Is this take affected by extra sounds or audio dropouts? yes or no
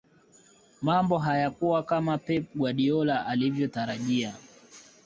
no